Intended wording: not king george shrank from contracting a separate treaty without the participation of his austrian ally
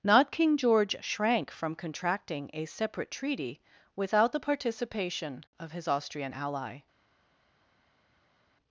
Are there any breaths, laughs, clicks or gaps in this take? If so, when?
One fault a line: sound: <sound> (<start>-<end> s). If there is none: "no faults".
no faults